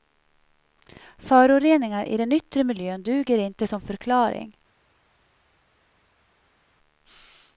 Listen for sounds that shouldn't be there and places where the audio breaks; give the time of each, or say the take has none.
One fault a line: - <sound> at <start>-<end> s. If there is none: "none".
none